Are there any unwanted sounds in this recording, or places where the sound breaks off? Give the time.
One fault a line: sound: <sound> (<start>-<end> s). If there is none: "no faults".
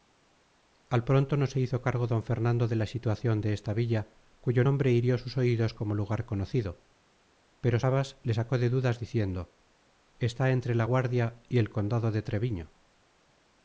no faults